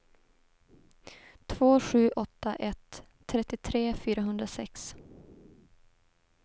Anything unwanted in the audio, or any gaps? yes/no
no